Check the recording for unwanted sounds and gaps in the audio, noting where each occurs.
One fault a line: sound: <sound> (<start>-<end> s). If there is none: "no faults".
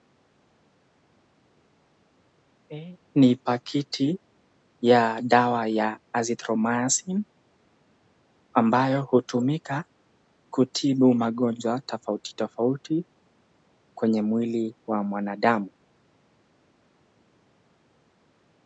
no faults